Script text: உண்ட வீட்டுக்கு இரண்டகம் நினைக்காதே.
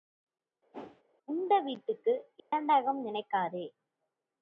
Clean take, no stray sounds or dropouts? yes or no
no